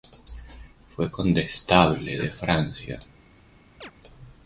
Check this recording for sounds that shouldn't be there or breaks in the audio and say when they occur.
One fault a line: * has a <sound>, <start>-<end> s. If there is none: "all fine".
* has a chirp, 3.8-3.9 s